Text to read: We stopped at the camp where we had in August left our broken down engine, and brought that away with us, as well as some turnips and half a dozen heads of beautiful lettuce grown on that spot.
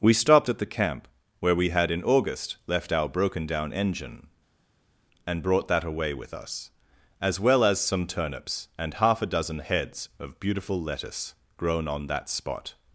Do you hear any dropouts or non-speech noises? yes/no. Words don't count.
no